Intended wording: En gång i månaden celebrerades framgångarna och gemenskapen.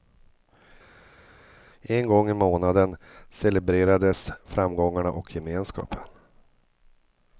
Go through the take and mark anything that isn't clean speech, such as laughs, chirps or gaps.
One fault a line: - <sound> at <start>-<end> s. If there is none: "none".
none